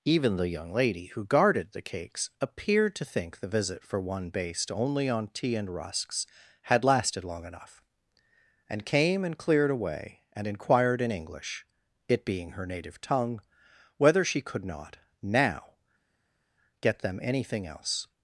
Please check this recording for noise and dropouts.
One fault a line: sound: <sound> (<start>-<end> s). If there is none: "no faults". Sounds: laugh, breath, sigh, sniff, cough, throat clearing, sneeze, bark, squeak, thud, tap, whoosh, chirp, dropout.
no faults